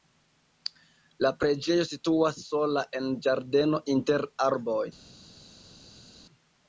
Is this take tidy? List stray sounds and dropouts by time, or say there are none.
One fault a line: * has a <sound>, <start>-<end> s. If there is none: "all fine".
all fine